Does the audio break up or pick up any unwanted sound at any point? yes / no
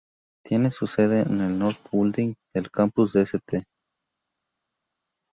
no